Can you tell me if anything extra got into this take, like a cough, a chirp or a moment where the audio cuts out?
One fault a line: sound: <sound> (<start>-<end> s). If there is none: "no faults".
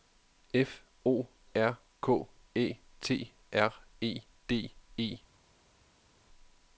no faults